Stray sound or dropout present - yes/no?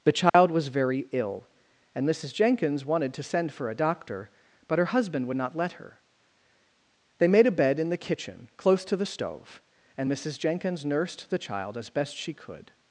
yes